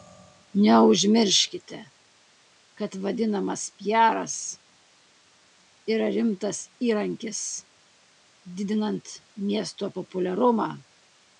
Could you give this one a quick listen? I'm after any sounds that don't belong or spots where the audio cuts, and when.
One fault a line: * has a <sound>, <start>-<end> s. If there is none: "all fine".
all fine